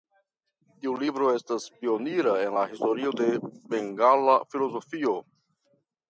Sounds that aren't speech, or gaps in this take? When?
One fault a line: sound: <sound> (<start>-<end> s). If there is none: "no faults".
no faults